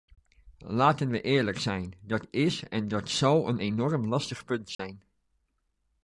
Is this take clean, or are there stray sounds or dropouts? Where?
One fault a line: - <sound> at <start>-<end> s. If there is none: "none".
- dropout at 4.7-4.8 s